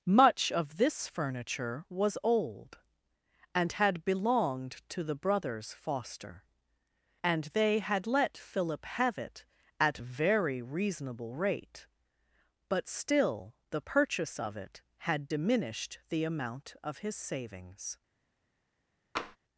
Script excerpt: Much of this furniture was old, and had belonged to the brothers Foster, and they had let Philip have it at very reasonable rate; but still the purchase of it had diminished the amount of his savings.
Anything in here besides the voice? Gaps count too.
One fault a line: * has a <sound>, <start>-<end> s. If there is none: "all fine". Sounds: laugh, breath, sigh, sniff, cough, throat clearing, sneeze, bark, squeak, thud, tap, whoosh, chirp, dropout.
* has a tap, 19.2-19.4 s